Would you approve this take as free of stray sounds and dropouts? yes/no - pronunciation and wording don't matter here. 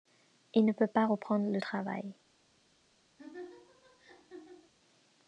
no